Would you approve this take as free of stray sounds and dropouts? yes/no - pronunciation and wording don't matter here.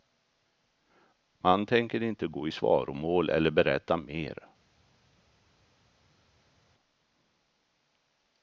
yes